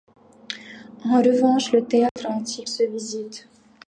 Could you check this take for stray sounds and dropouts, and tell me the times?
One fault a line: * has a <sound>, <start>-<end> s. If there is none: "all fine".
* has a dropout, 2.1-2.2 s